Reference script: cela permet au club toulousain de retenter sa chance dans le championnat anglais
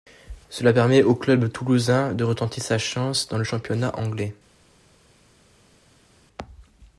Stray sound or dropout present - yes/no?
no